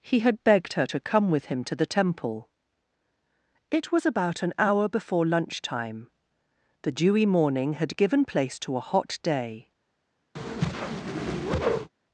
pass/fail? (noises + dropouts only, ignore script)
fail